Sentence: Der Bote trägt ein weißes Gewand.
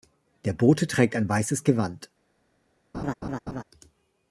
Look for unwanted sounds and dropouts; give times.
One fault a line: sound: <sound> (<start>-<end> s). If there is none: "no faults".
sound: laugh (2.9-3.6 s)